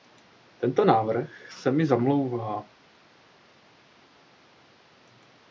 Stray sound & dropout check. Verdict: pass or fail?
pass